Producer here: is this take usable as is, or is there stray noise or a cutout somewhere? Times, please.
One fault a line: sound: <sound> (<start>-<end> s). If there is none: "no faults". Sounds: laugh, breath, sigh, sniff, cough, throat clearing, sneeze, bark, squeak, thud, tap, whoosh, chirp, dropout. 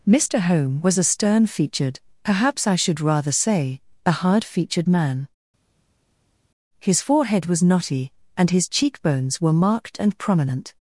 no faults